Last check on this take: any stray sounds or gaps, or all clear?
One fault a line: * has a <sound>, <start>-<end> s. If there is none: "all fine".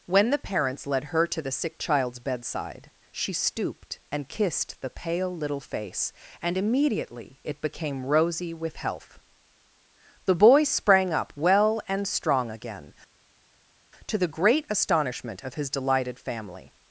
all fine